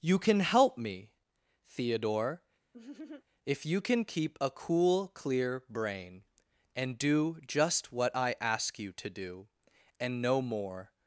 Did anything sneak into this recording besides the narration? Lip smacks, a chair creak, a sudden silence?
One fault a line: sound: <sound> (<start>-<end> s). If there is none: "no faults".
sound: laugh (2.7-3.2 s)